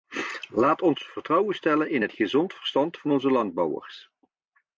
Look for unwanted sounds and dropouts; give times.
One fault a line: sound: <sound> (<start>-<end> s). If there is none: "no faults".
no faults